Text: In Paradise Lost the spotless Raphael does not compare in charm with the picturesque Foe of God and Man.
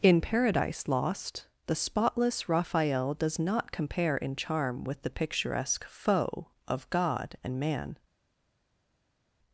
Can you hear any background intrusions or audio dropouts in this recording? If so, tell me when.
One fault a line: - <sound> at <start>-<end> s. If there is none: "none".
none